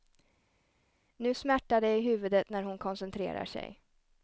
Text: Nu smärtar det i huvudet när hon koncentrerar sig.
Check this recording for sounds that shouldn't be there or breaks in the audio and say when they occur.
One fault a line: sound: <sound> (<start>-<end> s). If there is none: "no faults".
no faults